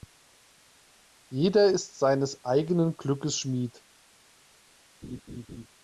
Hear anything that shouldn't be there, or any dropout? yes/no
yes